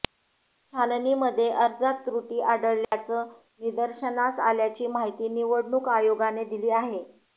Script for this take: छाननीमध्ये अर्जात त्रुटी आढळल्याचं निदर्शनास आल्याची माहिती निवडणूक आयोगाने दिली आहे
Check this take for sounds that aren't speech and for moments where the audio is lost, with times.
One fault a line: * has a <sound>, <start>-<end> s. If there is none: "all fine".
* has a dropout, 2.8-2.9 s